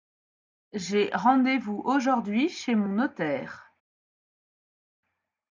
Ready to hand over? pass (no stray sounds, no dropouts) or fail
pass